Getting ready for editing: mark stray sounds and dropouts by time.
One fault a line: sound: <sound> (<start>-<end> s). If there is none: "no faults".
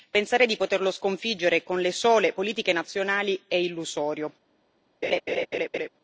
sound: laugh (5.0-5.9 s)